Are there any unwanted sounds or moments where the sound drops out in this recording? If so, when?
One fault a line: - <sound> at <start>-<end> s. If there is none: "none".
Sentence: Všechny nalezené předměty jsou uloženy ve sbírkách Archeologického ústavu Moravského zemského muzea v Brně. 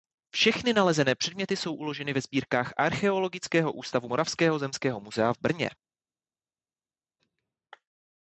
none